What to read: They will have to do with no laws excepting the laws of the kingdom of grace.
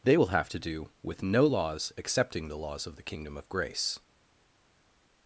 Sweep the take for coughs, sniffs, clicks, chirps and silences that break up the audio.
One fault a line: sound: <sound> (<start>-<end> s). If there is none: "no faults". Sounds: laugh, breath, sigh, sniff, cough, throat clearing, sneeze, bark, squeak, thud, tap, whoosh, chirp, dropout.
no faults